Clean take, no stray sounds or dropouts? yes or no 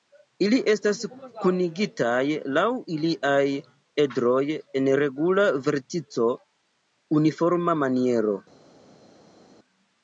yes